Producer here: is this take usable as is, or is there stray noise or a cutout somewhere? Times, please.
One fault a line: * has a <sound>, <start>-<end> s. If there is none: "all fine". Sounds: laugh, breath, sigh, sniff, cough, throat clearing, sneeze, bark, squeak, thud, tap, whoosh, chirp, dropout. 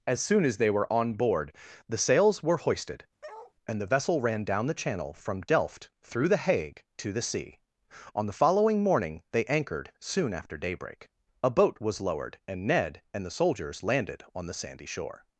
* has a bark, 3.2-3.5 s